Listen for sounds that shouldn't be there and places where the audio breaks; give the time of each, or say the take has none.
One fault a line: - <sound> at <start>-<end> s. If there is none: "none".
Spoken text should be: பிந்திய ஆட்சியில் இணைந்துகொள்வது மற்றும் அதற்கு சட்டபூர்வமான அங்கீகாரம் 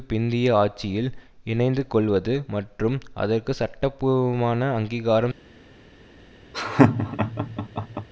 - laugh at 6.5-8.1 s